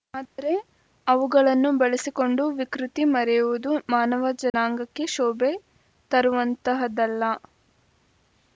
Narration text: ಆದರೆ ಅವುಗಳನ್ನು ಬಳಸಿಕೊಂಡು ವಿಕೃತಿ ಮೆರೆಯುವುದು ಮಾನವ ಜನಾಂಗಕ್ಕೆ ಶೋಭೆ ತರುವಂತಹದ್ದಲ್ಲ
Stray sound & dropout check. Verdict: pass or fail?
fail